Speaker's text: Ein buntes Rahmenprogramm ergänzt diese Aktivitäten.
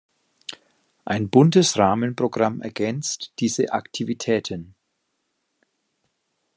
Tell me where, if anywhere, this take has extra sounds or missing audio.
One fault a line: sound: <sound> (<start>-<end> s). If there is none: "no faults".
no faults